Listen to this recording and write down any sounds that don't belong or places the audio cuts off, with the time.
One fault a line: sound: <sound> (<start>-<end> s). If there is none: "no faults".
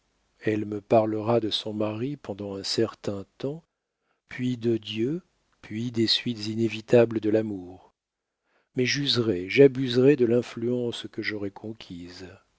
no faults